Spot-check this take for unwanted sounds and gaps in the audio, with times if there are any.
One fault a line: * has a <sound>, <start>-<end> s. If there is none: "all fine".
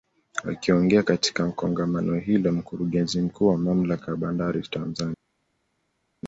all fine